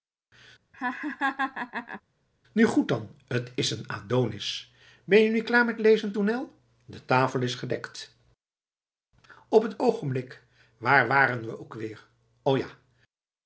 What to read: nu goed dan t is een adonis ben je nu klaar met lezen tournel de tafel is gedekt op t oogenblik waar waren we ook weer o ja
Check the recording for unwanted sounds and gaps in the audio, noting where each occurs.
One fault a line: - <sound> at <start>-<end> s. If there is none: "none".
- laugh at 0.7-2.0 s